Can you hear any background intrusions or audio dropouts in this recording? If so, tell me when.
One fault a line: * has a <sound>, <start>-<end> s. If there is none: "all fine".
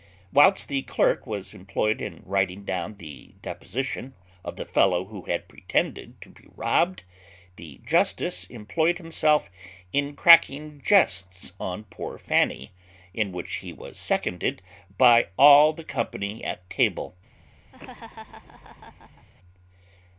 * has a laugh, 17.7-19.3 s